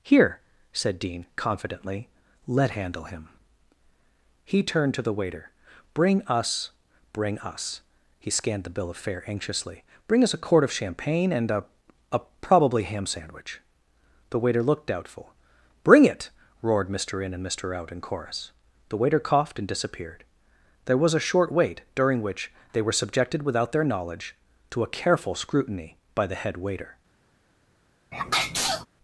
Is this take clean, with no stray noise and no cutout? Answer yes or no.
no